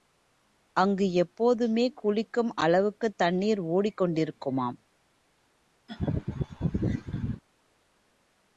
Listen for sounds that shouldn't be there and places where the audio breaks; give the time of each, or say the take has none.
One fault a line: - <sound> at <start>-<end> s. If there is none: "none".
- laugh at 5.9-7.4 s